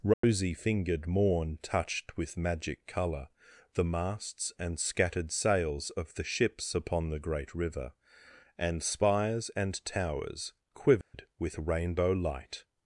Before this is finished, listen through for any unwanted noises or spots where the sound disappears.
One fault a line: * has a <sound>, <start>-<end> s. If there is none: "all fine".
* has a dropout, 0.1-0.2 s
* has a dropout, 11.0-11.1 s